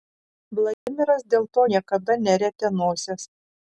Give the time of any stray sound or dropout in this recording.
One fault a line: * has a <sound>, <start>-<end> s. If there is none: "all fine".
* has a dropout, 0.7-0.9 s